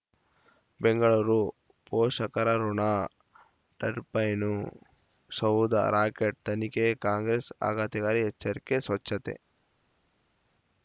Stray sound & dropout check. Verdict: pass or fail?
pass